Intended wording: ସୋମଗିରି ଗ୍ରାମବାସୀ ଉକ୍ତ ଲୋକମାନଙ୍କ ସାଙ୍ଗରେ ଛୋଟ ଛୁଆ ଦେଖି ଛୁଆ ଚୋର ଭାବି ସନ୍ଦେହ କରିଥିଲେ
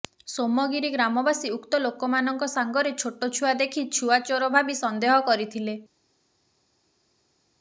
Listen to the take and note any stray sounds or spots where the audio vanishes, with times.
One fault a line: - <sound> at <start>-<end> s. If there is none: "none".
none